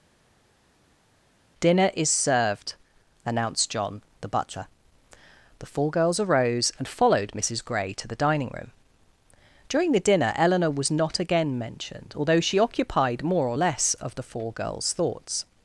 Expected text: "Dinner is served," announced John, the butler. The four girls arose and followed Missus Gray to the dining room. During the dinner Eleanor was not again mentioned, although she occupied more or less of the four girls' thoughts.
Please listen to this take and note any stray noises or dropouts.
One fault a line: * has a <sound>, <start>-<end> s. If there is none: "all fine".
all fine